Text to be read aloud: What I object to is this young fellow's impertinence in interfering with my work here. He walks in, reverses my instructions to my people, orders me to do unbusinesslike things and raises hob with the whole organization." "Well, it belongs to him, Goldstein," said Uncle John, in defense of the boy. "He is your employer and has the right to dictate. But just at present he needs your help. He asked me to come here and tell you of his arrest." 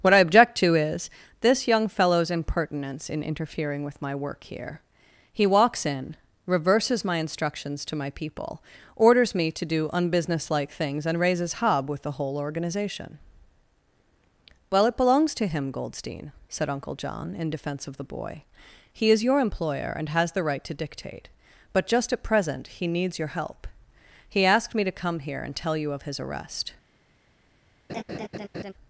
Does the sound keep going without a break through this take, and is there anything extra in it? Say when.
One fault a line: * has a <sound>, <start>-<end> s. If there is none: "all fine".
* has a laugh, 27.9-28.7 s